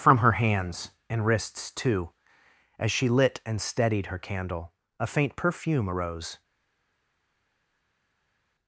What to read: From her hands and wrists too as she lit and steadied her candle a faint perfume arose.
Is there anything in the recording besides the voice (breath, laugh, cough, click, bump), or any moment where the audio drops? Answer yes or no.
no